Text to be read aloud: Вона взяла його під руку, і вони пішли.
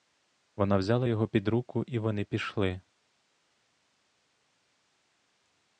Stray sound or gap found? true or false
false